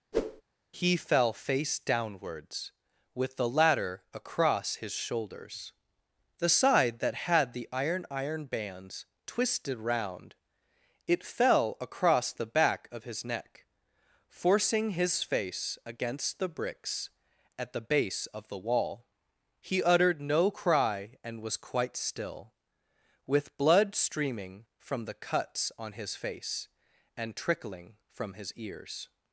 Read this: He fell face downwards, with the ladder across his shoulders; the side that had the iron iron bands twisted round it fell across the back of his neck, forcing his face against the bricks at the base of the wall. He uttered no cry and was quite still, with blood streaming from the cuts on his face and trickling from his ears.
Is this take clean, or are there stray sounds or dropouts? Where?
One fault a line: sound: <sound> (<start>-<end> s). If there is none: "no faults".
sound: whoosh (0.1-0.4 s)